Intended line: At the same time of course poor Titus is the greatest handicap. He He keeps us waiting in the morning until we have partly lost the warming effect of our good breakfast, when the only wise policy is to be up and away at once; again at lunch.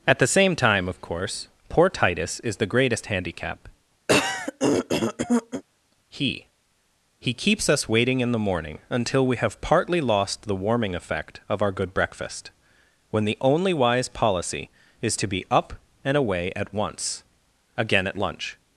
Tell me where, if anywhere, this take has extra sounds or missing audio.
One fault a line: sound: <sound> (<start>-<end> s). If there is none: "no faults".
sound: throat clearing (4.1-5.6 s)